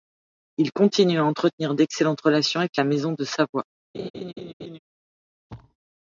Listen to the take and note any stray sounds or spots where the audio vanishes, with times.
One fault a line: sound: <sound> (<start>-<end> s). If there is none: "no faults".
sound: laugh (3.9-4.8 s)
sound: thud (5.5-5.8 s)